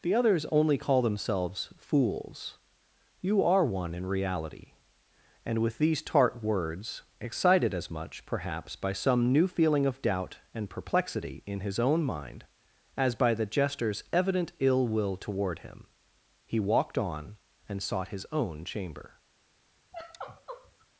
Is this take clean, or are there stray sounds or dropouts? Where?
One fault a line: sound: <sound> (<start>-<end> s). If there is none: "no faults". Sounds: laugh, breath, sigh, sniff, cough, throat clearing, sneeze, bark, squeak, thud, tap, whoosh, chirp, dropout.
sound: sigh (19.9-20.9 s)